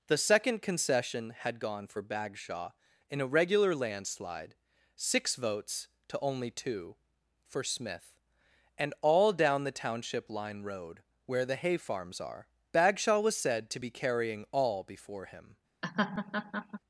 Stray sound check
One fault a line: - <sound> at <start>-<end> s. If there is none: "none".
- laugh at 15.8-16.8 s